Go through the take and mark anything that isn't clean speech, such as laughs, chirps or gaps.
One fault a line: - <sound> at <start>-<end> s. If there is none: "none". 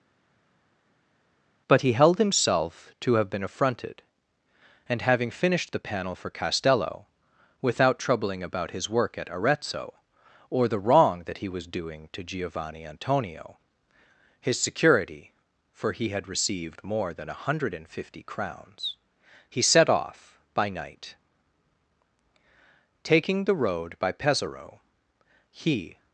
none